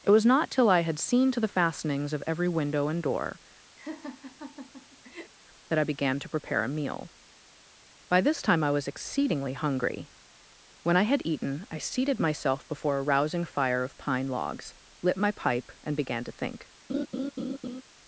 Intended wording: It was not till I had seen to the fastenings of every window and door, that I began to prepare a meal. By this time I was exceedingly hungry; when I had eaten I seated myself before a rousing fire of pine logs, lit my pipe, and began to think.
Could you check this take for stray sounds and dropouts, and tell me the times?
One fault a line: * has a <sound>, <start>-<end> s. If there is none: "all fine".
* has a laugh, 3.8-5.3 s
* has a laugh, 16.9-17.8 s